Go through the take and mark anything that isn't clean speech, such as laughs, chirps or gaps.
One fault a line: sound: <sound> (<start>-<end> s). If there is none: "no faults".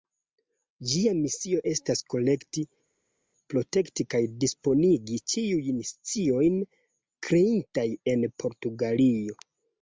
no faults